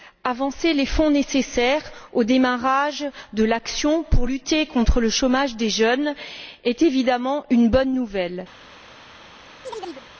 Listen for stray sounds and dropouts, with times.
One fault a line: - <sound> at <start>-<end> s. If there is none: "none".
- chirp at 9.6-10.1 s